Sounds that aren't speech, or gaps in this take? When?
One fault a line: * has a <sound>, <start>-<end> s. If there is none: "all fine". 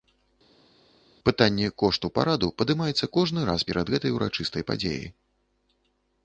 all fine